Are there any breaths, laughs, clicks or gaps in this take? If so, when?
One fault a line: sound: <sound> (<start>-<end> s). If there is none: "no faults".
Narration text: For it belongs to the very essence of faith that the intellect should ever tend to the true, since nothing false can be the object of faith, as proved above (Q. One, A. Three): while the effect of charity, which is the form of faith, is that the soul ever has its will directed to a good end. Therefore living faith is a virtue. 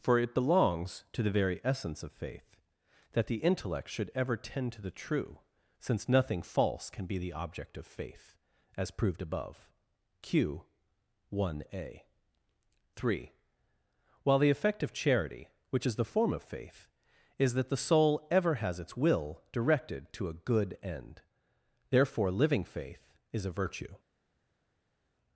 no faults